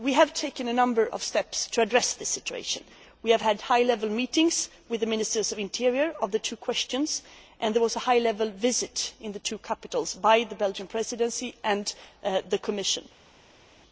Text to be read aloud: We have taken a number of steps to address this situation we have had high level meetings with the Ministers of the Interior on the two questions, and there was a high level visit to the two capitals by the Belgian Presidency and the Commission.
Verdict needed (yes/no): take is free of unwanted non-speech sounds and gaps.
yes